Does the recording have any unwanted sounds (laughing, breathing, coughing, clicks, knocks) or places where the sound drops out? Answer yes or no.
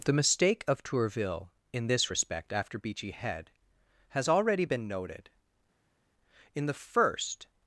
no